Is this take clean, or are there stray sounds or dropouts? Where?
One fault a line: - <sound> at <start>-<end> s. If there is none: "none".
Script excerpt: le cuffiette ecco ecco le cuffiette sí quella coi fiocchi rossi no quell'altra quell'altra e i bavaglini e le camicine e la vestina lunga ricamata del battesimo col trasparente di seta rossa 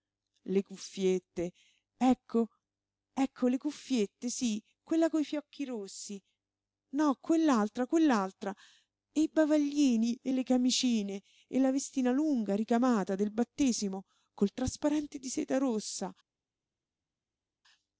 none